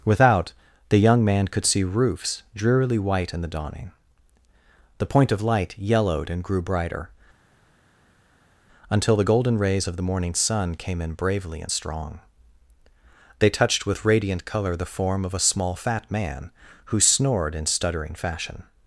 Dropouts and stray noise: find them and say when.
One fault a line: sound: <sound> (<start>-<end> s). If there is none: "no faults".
no faults